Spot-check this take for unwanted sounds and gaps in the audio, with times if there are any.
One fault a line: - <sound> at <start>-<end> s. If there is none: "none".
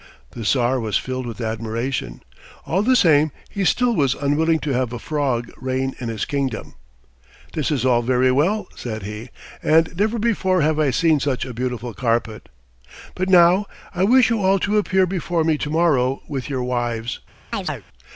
- chirp at 17.5-17.8 s